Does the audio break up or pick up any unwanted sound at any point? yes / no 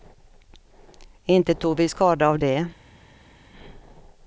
no